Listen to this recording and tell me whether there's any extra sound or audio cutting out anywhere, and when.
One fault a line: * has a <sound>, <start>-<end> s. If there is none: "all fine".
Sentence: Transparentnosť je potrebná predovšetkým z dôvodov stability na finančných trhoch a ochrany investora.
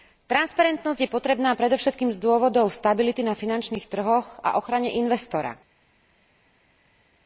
all fine